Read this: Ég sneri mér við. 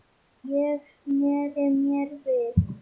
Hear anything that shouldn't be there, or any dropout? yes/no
no